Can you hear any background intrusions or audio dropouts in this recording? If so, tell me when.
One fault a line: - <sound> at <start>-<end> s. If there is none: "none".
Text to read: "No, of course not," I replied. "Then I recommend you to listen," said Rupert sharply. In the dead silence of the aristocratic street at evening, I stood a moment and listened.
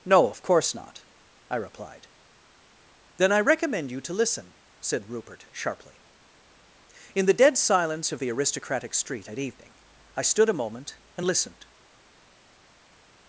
none